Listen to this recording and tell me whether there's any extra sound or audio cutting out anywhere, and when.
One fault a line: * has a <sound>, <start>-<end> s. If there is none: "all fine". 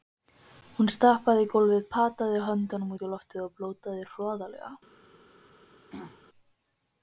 * has a throat clearing, 5.9-6.2 s